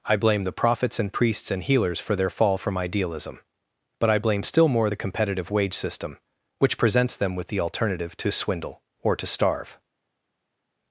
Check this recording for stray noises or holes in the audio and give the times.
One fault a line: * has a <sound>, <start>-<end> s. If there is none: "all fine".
all fine